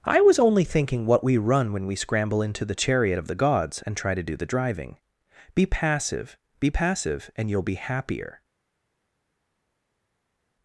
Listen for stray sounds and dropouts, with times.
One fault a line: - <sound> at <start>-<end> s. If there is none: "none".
none